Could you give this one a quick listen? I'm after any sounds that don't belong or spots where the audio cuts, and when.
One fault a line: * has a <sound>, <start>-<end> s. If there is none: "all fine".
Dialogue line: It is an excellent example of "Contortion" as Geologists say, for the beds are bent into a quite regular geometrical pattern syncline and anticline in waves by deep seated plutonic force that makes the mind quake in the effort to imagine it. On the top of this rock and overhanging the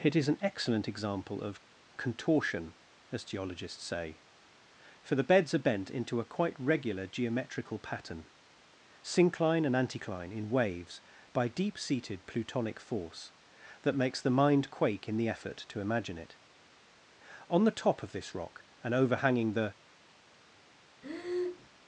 * has a breath, 21.0-21.7 s